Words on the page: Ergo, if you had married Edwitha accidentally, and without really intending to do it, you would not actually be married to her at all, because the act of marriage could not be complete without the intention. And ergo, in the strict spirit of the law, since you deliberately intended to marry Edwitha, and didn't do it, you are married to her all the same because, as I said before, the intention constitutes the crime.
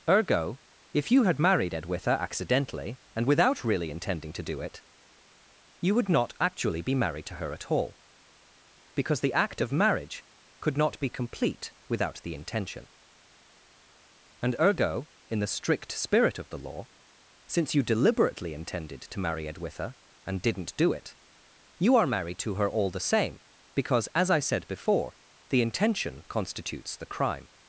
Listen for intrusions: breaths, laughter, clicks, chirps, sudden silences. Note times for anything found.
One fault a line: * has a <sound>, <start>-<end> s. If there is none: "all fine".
all fine